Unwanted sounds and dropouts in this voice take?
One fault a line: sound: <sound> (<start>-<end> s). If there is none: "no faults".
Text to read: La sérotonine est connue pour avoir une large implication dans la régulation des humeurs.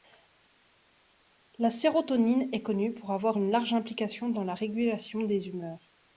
no faults